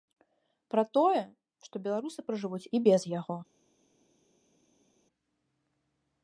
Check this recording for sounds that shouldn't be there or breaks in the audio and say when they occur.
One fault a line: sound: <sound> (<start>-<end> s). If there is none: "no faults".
no faults